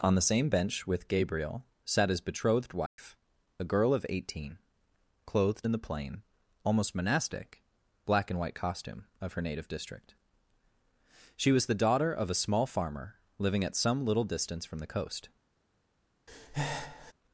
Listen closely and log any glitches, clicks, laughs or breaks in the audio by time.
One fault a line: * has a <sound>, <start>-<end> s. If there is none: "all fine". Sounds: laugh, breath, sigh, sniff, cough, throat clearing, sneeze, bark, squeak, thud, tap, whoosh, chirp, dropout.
* has a dropout, 2.9-3.0 s
* has a breath, 16.3-17.1 s